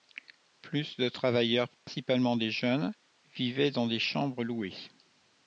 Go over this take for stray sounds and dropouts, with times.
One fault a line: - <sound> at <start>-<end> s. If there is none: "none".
- dropout at 1.7-1.9 s